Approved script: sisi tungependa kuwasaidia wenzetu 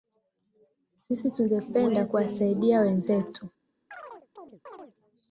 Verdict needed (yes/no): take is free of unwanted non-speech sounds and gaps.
no